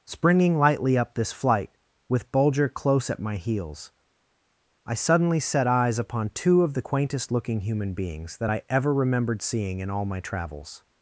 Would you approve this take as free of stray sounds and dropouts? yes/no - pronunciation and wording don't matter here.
yes